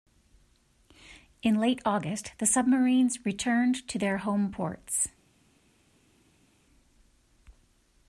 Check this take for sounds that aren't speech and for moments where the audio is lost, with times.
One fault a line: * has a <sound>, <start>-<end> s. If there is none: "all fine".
all fine